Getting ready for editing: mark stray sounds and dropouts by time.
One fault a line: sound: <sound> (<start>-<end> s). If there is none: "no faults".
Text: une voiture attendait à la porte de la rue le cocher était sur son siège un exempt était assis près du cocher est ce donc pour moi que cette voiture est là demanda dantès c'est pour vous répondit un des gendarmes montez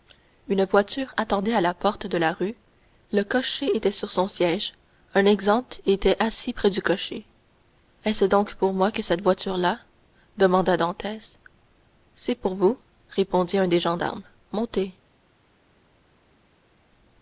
no faults